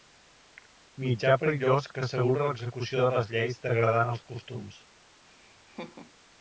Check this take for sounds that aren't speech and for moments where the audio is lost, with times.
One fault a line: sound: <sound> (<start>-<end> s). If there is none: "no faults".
sound: laugh (5.3-6.1 s)